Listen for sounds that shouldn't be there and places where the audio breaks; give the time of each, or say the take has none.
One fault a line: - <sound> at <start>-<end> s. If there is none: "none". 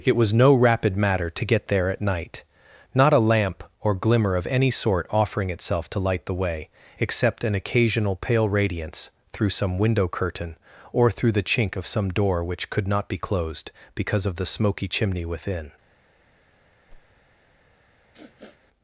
- whoosh at 16.9-17.1 s
- sniff at 18.1-18.6 s